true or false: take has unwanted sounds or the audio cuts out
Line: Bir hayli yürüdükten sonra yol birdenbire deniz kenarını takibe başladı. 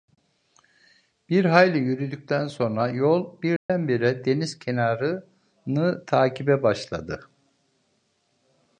true